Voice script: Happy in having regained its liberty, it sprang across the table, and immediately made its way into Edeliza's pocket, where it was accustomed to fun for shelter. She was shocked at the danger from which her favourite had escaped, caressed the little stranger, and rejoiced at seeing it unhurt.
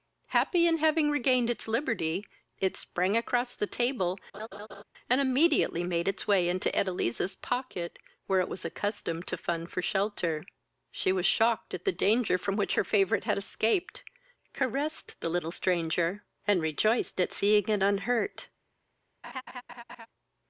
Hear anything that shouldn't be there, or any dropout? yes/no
yes